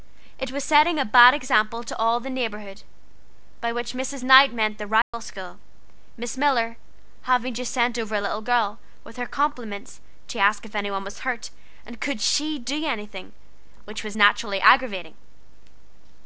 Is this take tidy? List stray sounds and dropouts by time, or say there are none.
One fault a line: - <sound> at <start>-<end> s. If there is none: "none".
- dropout at 5.0-5.1 s